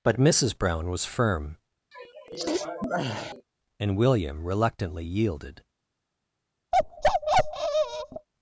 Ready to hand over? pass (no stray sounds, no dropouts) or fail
fail